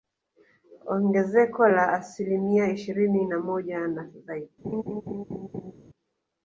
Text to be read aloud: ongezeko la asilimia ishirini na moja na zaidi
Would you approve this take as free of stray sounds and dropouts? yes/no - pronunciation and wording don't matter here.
no